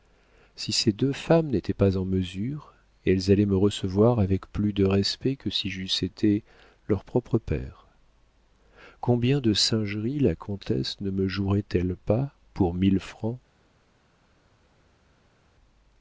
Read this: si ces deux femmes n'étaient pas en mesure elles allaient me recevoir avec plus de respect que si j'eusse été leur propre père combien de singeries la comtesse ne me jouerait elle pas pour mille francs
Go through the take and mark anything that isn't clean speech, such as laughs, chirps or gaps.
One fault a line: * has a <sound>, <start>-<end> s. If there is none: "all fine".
all fine